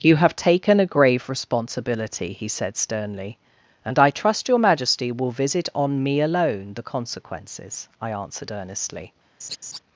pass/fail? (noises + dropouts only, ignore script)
fail